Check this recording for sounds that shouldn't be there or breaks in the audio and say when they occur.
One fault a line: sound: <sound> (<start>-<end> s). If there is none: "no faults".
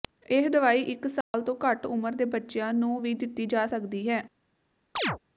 sound: dropout (1.2-1.3 s)
sound: chirp (5.0-5.2 s)